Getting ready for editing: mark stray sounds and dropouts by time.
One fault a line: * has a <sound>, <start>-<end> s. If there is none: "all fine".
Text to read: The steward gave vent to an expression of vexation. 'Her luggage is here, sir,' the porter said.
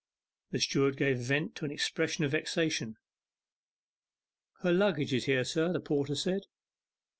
all fine